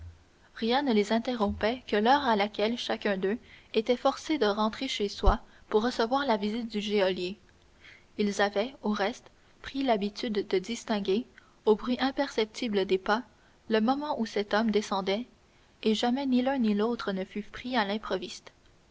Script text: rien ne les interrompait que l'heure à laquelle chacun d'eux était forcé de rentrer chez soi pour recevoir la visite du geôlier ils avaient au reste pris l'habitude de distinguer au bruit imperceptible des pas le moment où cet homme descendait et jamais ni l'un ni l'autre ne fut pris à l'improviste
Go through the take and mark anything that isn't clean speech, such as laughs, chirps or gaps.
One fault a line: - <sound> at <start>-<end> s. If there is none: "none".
none